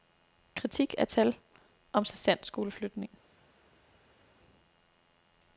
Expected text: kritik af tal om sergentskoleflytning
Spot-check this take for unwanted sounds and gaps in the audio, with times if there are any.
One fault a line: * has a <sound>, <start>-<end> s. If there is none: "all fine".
all fine